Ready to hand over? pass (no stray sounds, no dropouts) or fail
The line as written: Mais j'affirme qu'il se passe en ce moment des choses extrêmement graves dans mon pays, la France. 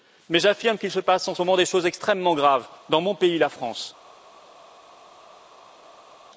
pass